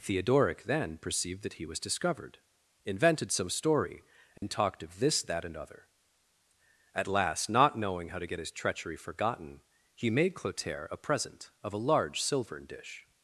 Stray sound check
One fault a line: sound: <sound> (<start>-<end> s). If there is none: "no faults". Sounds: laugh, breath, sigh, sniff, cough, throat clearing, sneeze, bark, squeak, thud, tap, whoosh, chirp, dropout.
sound: dropout (4.4-4.4 s)